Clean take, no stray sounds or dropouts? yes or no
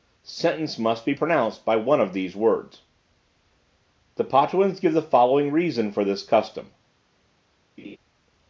no